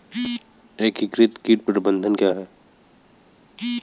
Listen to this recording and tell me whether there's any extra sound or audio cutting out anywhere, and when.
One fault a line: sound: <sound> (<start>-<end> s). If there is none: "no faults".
no faults